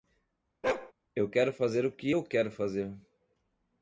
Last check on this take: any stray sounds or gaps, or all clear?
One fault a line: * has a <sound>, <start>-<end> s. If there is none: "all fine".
* has a bark, 0.6-0.9 s